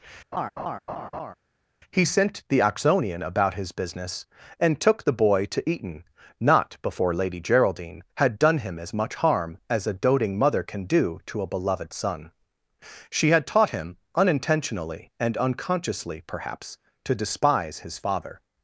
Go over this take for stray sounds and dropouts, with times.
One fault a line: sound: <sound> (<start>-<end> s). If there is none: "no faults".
sound: laugh (0.3-1.3 s)